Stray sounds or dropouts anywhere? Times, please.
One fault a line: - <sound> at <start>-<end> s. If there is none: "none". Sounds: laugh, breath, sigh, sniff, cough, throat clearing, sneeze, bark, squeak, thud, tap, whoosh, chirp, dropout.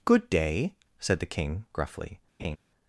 - laugh at 2.4-2.6 s